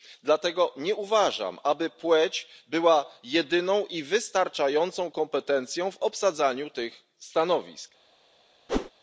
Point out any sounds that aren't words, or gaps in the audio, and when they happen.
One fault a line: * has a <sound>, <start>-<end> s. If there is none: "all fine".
* has a whoosh, 8.7-8.9 s